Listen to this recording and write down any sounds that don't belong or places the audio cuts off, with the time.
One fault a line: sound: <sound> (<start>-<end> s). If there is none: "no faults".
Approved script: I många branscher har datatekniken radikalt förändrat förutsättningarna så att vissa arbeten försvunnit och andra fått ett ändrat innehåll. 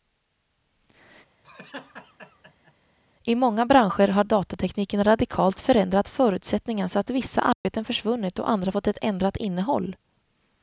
sound: laugh (1.4-2.7 s)
sound: dropout (7.5-7.7 s)